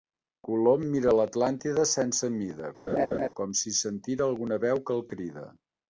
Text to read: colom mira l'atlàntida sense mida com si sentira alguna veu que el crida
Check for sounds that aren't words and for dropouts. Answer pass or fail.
fail